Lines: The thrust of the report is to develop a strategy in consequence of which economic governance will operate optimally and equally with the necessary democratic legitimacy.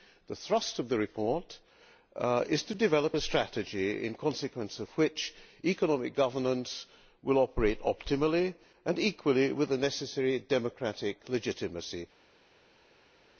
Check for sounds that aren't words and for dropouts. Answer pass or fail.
pass